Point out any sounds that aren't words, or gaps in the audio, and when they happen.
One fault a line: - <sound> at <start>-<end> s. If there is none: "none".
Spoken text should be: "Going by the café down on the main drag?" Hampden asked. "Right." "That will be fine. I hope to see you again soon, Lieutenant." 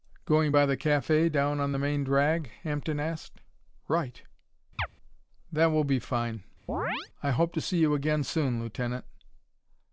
- chirp at 4.8-4.9 s
- chirp at 6.7-7.1 s